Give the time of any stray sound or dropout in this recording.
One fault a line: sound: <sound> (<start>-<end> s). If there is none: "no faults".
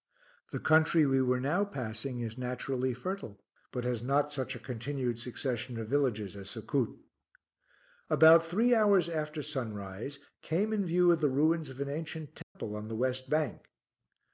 sound: dropout (12.4-12.6 s)